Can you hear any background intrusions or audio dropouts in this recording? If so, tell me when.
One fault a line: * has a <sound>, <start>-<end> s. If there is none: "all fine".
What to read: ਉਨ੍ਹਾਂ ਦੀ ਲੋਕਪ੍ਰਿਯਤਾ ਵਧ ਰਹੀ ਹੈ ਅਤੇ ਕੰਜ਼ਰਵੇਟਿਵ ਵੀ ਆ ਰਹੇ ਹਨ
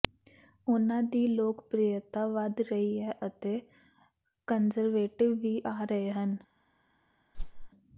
* has a whoosh, 7.3-7.7 s